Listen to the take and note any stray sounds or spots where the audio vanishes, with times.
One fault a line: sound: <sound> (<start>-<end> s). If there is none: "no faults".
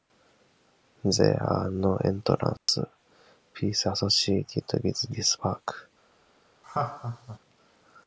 sound: dropout (2.6-2.7 s)
sound: laugh (6.6-7.4 s)